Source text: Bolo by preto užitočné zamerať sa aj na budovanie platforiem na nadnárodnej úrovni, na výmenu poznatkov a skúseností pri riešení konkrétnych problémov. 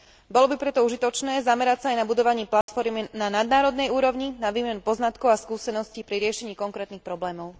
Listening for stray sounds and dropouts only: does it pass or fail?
fail